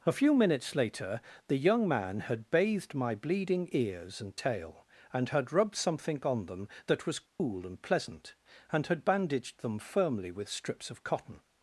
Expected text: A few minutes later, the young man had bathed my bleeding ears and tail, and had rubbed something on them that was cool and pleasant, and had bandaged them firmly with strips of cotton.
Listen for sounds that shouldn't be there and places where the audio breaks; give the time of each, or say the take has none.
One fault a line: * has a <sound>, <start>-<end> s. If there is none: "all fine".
* has a dropout, 7.3-7.4 s